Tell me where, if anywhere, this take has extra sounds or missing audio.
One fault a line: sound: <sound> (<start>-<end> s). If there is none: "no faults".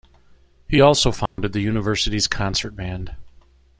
sound: dropout (1.3-1.4 s)